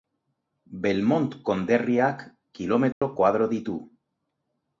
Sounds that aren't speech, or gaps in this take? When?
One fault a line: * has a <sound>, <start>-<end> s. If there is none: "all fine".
* has a dropout, 2.9-3.0 s